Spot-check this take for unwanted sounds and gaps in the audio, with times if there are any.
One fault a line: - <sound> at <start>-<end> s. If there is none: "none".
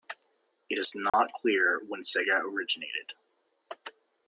- dropout at 1.1-1.1 s